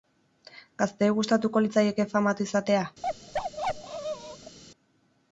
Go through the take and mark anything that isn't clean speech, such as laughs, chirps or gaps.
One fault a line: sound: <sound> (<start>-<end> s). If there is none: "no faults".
sound: bark (3.0-4.6 s)